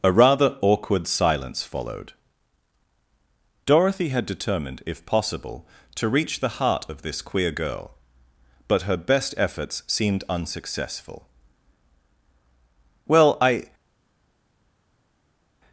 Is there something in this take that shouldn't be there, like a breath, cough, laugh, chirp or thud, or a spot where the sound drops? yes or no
no